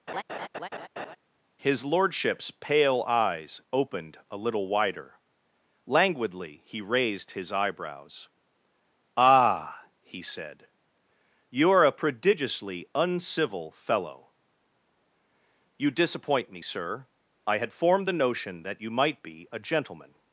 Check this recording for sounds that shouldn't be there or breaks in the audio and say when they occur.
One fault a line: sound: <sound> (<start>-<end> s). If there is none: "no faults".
sound: laugh (0.1-1.2 s)